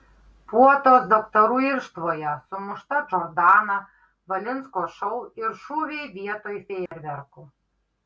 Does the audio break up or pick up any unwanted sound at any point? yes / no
yes